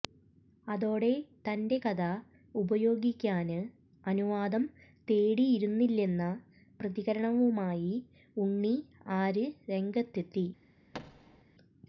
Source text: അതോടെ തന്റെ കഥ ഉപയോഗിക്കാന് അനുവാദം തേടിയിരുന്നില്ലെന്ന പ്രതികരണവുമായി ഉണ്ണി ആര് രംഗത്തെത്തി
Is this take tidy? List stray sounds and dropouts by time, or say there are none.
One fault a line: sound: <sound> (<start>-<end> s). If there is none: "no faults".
sound: thud (10.9-11.4 s)